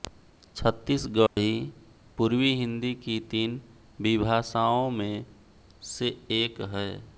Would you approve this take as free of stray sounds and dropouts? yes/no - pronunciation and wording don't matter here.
no